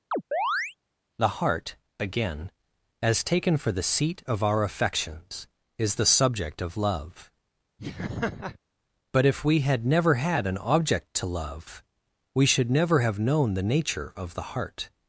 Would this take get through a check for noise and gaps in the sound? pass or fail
fail